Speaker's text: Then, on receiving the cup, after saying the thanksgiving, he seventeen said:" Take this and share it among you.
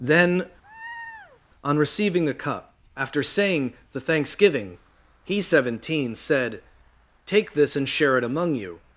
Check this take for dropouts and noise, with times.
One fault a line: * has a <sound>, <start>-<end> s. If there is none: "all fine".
* has a laugh, 0.6-1.4 s